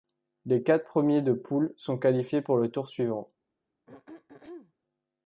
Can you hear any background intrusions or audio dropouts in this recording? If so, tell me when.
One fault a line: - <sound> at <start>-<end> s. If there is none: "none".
- throat clearing at 3.9-4.7 s